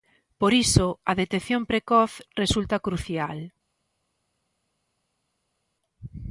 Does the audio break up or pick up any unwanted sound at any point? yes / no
no